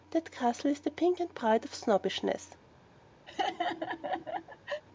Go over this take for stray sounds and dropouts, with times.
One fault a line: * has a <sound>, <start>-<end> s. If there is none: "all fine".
* has a laugh, 3.3-4.8 s